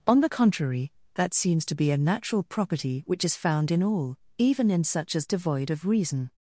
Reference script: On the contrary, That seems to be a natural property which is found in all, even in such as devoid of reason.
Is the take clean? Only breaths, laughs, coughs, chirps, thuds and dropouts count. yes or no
yes